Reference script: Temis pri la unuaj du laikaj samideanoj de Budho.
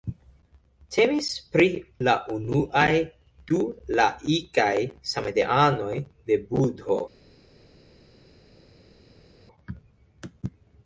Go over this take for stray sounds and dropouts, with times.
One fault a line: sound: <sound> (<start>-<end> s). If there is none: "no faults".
no faults